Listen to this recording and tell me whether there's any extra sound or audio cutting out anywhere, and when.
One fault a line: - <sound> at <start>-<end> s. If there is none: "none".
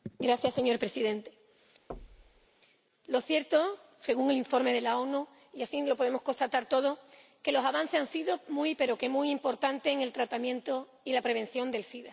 - thud at 1.9-2.5 s